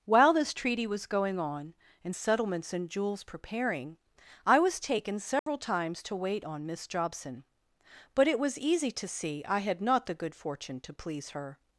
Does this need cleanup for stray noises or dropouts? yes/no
yes